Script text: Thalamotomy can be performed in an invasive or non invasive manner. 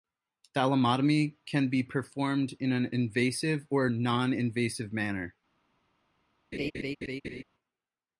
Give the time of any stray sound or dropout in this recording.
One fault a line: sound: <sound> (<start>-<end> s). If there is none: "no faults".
sound: laugh (6.5-7.4 s)